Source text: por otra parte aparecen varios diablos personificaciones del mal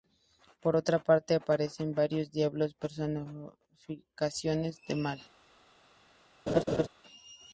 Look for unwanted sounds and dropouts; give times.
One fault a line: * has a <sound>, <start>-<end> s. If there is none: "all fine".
* has a laugh, 6.5-6.9 s